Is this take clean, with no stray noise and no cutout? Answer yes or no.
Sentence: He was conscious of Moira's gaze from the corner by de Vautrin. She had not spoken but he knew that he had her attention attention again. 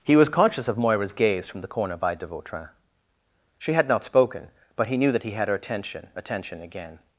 yes